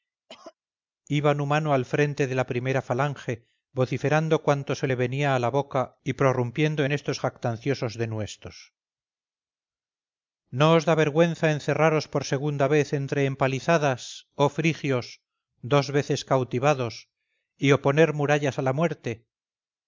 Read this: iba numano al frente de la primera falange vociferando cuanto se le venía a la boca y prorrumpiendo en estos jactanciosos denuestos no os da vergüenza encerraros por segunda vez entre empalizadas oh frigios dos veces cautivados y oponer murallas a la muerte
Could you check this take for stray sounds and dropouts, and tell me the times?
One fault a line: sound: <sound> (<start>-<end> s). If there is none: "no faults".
sound: cough (0.3-0.6 s)